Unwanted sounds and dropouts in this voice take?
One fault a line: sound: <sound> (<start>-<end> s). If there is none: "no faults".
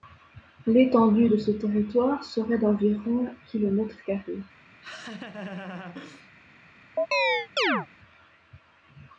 sound: laugh (4.8-6.3 s)
sound: chirp (7.0-7.9 s)